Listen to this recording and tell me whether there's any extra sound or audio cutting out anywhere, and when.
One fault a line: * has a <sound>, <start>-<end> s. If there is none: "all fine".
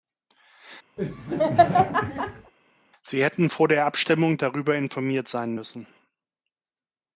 * has a laugh, 1.0-2.5 s